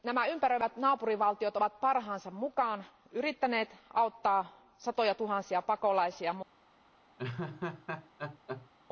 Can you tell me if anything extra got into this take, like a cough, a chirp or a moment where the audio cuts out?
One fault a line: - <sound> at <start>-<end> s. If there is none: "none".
- laugh at 7.2-8.7 s